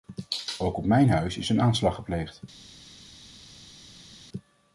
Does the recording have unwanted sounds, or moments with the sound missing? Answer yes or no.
no